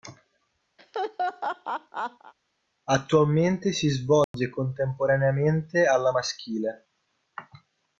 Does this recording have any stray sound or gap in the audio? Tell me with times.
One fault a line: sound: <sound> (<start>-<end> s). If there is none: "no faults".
sound: laugh (0.8-2.3 s)
sound: dropout (4.2-4.3 s)